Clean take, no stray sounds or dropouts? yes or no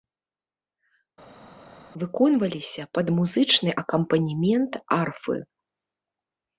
yes